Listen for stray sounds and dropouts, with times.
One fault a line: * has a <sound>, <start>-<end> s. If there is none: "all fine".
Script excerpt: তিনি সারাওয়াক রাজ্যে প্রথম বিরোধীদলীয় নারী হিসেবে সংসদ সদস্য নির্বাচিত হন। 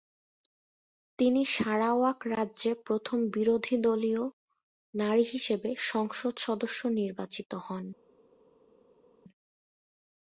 all fine